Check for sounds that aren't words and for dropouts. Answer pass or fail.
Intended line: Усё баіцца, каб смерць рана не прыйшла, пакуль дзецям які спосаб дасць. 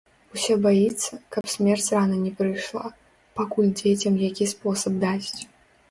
fail